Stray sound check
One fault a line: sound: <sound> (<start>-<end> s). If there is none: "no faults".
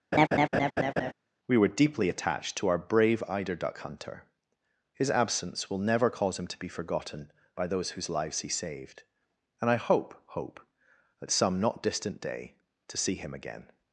sound: laugh (0.1-1.1 s)